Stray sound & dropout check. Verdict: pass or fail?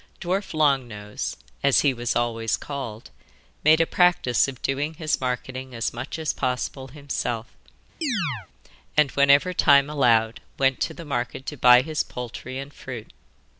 fail